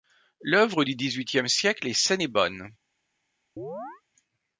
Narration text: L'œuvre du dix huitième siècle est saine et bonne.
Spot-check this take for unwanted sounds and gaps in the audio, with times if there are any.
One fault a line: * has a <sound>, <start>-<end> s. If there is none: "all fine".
* has a chirp, 3.6-4.0 s